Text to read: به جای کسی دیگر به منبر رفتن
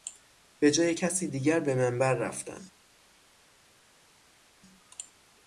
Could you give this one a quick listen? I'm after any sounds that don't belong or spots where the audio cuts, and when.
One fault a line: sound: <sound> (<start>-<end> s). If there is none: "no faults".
no faults